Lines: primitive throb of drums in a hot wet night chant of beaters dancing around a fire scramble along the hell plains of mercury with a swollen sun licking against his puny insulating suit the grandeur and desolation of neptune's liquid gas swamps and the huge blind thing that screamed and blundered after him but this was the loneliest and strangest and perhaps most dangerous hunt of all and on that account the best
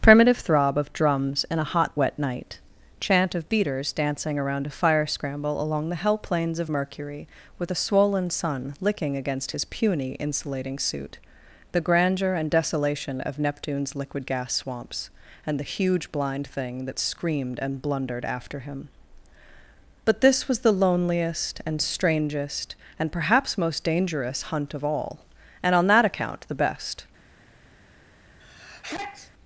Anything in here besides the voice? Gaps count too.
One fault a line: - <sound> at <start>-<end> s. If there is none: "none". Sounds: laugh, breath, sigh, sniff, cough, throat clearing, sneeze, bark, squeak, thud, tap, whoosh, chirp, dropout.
- sneeze at 28.4-29.3 s